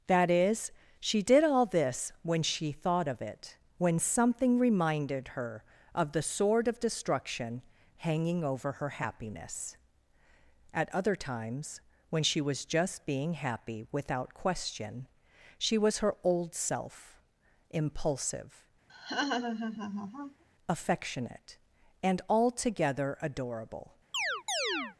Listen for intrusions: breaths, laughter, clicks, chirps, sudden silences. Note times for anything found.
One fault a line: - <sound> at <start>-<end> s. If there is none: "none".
- laugh at 18.9-20.4 s
- chirp at 24.1-25.0 s